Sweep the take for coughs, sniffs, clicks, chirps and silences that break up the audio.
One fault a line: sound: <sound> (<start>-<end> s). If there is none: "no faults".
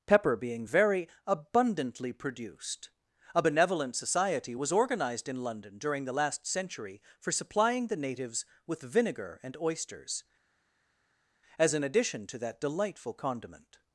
no faults